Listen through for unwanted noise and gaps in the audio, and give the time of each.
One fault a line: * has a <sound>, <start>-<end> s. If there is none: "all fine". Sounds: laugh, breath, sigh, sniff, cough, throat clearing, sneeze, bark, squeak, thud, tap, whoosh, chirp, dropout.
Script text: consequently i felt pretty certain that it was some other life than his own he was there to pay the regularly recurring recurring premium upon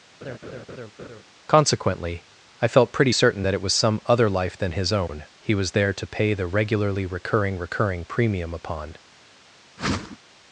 * has a laugh, 0.2-1.2 s
* has a whoosh, 9.8-10.2 s